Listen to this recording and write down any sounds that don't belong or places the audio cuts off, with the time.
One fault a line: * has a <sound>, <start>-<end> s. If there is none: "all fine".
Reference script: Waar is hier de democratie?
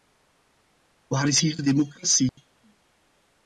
* has a dropout, 2.3-2.4 s